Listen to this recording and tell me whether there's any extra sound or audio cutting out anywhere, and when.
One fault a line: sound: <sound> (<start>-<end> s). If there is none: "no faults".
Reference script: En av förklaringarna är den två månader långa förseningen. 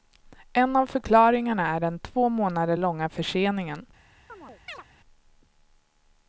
sound: chirp (4.3-4.8 s)